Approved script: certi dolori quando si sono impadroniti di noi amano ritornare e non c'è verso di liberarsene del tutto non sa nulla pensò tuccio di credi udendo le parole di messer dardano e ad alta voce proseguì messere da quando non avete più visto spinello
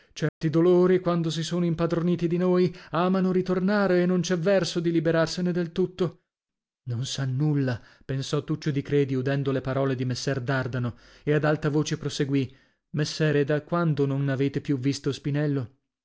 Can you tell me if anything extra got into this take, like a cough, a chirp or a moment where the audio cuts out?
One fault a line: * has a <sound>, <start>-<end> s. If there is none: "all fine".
* has a dropout, 0.3-0.4 s